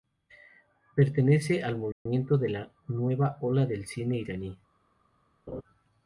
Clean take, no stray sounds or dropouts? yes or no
no